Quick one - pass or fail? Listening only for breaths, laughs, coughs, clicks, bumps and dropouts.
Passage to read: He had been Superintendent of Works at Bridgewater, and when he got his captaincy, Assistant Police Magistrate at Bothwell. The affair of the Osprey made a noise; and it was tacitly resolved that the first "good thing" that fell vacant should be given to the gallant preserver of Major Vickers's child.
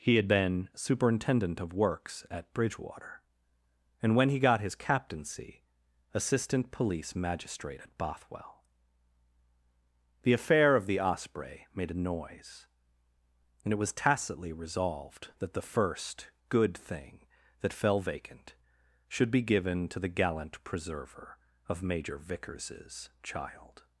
pass